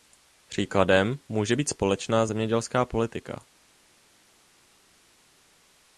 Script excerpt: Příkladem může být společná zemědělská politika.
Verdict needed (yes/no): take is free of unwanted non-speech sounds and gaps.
yes